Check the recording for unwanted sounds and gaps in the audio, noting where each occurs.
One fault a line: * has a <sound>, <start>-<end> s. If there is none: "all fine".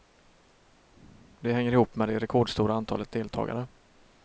all fine